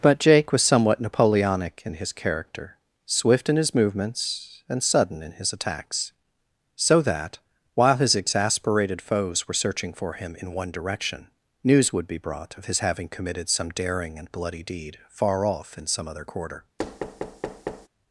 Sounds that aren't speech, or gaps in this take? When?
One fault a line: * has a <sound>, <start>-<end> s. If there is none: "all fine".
* has a thud, 16.8-17.9 s